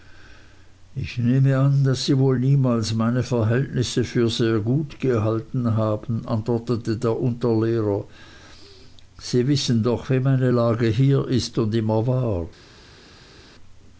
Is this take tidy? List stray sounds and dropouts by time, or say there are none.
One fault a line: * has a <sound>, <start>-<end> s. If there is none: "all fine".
all fine